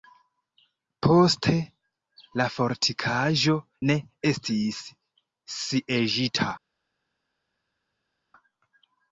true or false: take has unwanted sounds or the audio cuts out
false